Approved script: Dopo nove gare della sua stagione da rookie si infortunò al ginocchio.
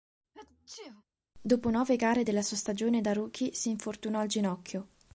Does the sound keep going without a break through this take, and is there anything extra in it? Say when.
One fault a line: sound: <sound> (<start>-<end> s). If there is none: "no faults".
sound: sneeze (0.3-1.0 s)